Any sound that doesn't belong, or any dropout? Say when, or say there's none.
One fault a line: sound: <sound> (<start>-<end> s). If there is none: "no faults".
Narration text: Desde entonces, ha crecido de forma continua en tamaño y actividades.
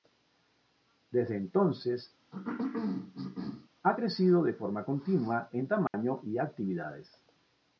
sound: cough (2.3-3.7 s)
sound: dropout (5.9-5.9 s)